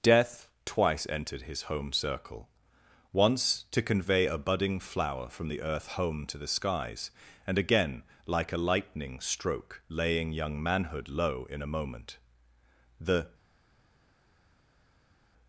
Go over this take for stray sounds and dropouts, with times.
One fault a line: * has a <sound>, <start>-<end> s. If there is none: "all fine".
all fine